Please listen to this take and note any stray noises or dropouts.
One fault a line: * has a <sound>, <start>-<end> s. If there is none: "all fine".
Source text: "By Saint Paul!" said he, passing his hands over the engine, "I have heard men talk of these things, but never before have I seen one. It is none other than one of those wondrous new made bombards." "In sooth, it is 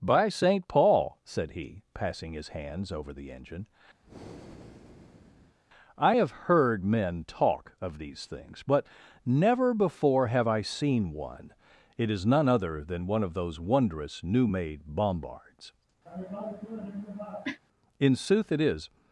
* has a breath, 4.0-5.6 s
* has a cough, 16.1-17.6 s